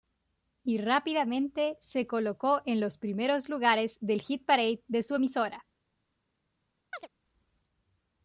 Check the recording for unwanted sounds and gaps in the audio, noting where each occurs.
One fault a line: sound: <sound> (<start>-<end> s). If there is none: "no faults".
sound: chirp (6.9-7.1 s)